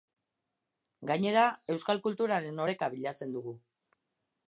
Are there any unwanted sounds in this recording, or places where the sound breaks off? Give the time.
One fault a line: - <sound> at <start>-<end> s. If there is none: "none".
none